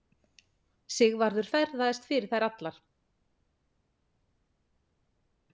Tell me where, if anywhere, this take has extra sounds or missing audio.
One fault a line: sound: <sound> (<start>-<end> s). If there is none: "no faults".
no faults